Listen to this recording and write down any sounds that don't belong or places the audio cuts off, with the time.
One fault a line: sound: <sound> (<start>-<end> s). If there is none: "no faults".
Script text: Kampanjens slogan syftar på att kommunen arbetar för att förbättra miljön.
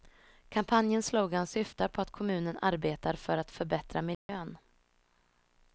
sound: dropout (4.1-4.3 s)